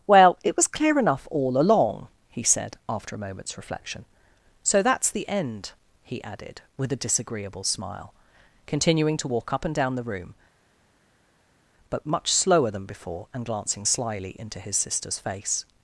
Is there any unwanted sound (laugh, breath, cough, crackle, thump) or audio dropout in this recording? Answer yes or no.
no